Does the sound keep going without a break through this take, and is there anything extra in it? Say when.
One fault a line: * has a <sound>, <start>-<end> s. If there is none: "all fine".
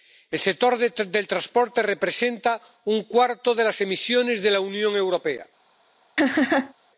* has a laugh, 6.2-6.7 s